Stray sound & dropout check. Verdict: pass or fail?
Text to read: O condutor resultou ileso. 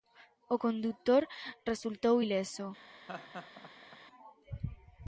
fail